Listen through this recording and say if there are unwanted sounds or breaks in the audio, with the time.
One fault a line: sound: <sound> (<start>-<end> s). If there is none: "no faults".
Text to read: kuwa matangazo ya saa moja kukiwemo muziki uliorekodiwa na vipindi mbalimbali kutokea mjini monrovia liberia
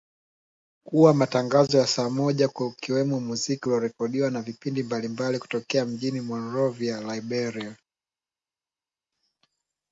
no faults